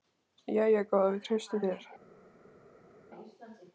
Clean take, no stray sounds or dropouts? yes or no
yes